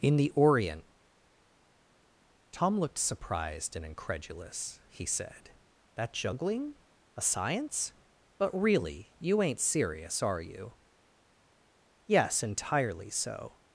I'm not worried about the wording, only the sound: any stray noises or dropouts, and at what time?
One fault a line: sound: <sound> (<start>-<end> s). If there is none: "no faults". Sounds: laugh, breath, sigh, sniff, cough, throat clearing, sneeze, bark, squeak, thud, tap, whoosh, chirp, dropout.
no faults